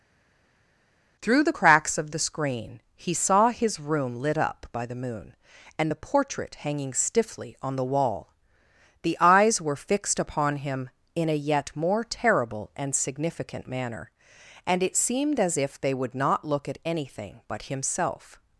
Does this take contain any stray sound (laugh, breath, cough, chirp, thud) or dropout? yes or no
no